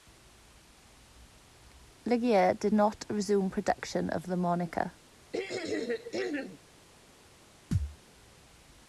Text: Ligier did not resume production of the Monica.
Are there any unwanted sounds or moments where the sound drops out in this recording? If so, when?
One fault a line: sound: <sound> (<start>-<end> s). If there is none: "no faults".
sound: throat clearing (5.3-6.6 s)
sound: thud (7.7-8.0 s)